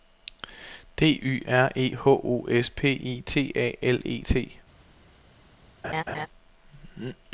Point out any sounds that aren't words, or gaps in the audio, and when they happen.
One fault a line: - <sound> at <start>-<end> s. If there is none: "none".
- laugh at 5.8-6.3 s